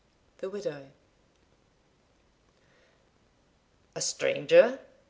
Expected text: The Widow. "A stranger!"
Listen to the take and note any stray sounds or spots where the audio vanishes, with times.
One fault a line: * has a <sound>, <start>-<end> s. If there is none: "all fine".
all fine